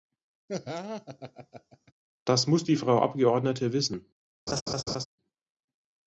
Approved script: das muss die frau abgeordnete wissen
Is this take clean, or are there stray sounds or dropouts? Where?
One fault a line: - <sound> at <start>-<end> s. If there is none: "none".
- laugh at 0.5-1.9 s
- laugh at 4.5-5.1 s